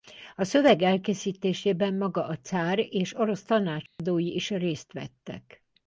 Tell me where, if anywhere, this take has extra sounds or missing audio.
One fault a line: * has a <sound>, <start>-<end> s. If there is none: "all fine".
* has a dropout, 3.9-4.0 s